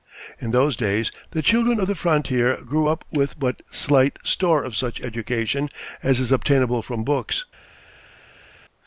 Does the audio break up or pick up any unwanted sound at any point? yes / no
no